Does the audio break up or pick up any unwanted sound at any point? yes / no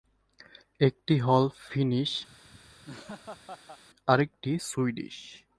yes